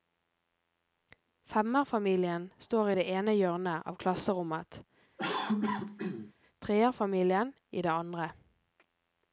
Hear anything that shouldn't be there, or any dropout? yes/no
yes